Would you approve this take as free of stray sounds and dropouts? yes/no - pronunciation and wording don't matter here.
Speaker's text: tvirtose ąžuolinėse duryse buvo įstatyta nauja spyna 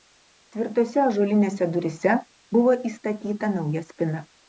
yes